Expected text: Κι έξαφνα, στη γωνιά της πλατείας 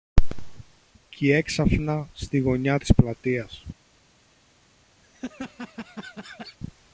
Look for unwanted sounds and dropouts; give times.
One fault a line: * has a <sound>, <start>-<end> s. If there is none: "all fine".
* has a laugh, 5.0-6.6 s